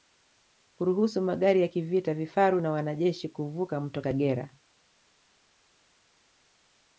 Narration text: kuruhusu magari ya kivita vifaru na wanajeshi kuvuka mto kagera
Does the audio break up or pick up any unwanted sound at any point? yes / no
no